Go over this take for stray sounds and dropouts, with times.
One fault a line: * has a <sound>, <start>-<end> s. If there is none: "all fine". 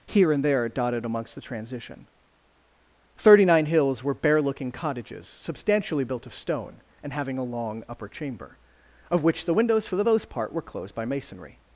all fine